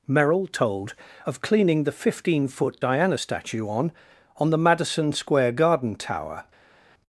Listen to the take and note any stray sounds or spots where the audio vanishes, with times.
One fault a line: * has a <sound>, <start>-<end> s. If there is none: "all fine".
all fine